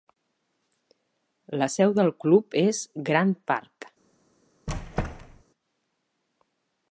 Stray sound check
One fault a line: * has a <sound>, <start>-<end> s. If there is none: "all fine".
* has a squeak, 4.7-5.4 s